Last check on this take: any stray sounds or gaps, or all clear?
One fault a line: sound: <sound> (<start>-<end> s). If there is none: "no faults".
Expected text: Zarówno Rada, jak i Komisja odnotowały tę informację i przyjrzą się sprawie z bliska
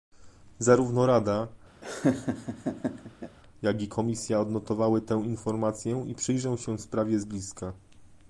sound: laugh (1.8-3.4 s)